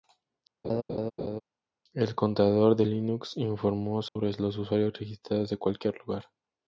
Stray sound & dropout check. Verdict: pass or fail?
fail